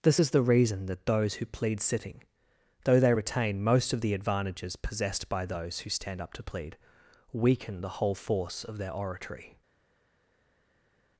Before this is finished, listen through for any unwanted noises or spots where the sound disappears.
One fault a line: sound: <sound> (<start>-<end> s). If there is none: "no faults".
no faults